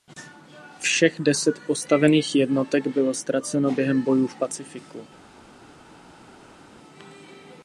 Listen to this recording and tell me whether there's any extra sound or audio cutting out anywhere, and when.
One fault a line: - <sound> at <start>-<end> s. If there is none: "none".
none